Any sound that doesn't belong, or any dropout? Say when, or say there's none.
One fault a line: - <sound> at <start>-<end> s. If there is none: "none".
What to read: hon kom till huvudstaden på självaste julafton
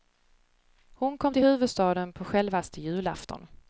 none